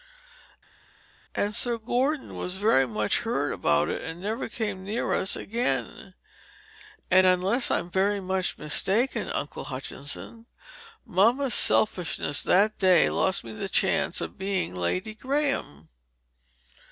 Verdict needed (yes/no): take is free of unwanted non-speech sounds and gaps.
yes